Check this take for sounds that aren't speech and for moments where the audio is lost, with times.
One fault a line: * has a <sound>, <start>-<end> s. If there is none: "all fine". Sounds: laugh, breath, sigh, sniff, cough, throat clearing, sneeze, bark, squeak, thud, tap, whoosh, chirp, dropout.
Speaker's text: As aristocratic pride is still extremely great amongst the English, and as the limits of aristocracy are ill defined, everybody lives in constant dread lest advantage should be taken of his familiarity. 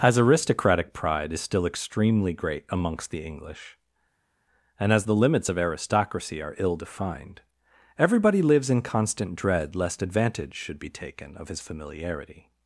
all fine